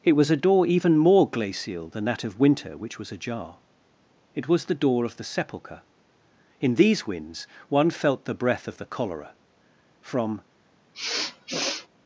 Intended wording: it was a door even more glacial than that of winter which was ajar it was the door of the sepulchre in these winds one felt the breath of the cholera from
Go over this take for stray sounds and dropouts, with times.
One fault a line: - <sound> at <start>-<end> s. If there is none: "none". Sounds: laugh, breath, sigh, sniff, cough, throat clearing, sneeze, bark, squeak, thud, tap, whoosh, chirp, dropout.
- sniff at 10.9-11.9 s